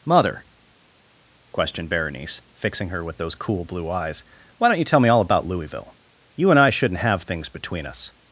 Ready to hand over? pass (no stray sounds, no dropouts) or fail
pass